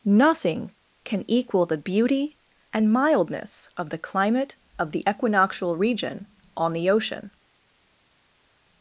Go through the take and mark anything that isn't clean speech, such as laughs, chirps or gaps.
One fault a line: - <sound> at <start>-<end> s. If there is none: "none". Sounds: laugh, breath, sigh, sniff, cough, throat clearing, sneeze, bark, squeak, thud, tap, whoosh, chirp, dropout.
none